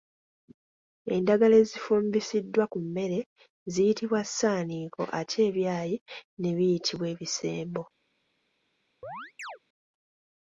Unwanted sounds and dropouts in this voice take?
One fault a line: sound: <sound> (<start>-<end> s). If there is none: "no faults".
sound: chirp (9.0-9.6 s)